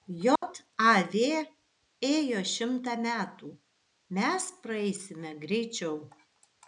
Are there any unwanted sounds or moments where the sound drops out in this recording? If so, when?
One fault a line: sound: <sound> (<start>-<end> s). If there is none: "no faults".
sound: dropout (0.4-0.4 s)